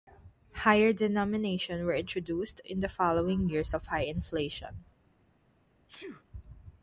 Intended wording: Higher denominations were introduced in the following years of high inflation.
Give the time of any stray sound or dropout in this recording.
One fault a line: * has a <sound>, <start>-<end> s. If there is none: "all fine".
* has a sneeze, 5.9-6.2 s